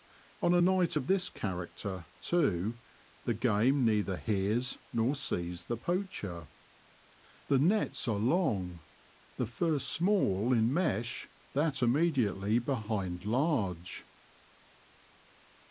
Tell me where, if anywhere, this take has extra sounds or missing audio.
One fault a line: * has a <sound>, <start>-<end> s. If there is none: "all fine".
all fine